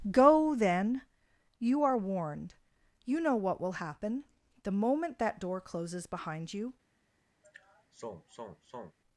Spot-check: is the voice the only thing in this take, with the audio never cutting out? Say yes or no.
no